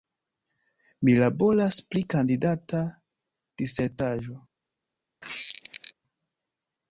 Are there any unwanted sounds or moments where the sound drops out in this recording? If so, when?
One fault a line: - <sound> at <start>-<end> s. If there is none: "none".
- squeak at 5.2-5.9 s